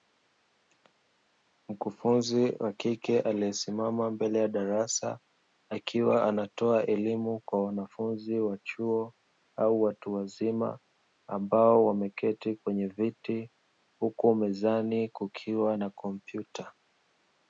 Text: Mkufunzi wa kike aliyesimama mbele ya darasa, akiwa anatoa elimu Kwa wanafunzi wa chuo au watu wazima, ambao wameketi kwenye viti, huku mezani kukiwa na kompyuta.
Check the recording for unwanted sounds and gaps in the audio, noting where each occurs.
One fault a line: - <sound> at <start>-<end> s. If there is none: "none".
none